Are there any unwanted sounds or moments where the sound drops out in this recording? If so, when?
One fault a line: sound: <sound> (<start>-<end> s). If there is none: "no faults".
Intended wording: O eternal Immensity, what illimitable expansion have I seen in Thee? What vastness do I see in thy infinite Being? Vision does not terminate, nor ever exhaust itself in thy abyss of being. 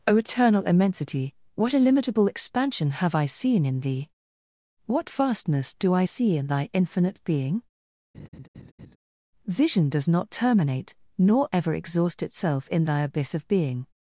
sound: laugh (8.1-9.0 s)